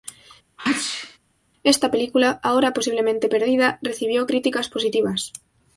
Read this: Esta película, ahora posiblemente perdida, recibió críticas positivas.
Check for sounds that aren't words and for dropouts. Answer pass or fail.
fail